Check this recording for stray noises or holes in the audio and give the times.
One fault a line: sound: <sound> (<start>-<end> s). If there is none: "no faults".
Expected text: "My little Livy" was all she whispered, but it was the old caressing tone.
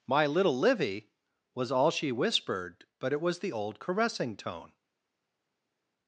no faults